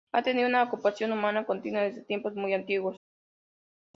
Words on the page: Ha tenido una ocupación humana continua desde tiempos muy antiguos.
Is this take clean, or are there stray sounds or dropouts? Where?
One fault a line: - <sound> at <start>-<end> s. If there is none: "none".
none